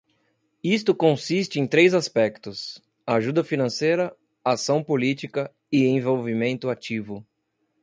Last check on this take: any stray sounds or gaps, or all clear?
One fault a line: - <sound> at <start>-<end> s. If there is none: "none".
none